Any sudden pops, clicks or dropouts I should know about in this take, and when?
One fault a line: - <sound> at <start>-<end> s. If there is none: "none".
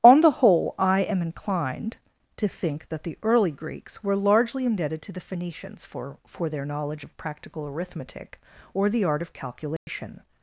- dropout at 9.8-9.9 s